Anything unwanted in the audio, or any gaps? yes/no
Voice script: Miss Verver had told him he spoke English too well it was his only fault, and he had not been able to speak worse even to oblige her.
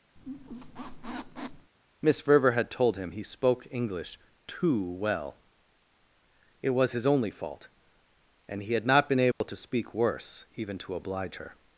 yes